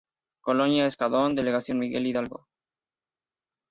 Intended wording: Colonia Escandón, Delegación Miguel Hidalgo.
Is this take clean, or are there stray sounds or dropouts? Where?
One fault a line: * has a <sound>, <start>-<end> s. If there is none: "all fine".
all fine